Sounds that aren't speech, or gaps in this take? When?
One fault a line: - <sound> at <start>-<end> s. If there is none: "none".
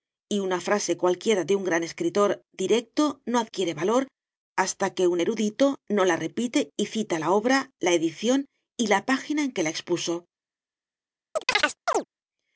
- chirp at 11.4-12.0 s